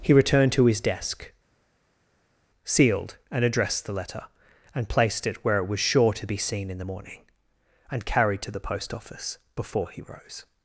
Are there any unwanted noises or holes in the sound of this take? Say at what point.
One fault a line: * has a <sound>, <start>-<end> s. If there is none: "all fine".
all fine